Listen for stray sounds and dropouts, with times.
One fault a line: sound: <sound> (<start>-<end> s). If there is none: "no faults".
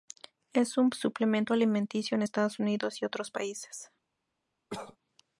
sound: cough (4.7-5.0 s)